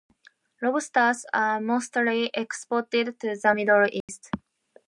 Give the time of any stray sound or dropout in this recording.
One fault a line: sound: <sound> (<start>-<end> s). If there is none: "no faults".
sound: dropout (4.0-4.1 s)